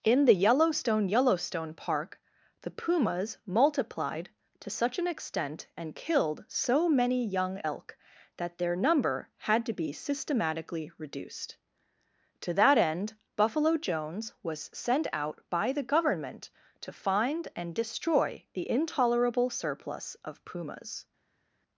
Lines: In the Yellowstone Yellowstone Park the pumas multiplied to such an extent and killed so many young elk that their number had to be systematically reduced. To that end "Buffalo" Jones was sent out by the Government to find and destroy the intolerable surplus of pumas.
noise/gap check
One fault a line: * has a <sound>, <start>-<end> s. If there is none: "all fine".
all fine